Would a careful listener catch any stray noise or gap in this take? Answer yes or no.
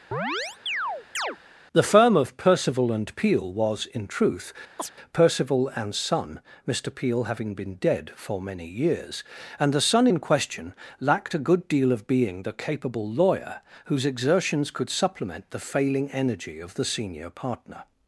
yes